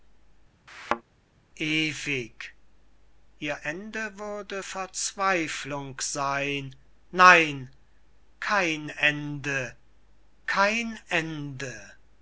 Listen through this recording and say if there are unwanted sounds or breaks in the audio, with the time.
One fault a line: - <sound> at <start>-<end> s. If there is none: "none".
- thud at 0.7-1.0 s